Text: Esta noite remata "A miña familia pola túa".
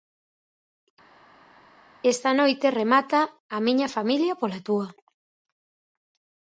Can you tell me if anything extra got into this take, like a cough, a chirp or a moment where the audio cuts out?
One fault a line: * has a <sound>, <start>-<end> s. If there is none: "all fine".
all fine